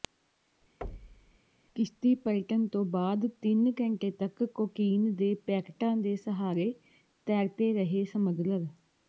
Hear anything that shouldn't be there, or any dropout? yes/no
yes